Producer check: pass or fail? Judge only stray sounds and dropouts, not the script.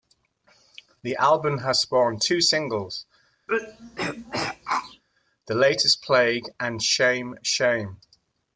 fail